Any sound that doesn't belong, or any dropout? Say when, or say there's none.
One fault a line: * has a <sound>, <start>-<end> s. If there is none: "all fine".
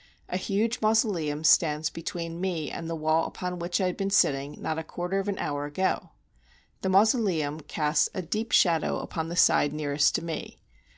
all fine